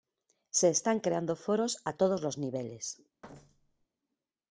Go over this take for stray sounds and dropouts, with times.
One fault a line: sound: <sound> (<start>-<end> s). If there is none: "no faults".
sound: thud (3.2-3.9 s)